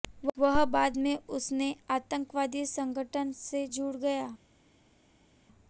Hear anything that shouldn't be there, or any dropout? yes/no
no